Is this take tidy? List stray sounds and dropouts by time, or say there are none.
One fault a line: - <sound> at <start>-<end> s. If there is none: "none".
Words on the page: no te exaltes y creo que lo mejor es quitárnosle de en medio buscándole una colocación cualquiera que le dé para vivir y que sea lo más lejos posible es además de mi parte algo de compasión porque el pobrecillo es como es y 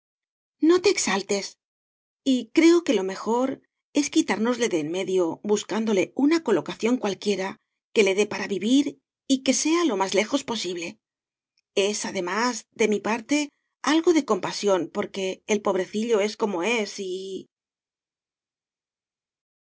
none